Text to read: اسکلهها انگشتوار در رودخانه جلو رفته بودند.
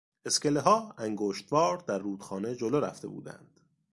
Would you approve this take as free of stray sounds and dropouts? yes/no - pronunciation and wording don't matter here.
yes